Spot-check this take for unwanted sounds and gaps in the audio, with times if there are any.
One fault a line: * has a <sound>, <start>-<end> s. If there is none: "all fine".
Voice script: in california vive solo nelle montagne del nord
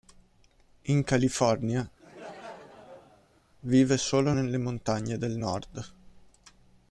* has a laugh, 2.0-3.4 s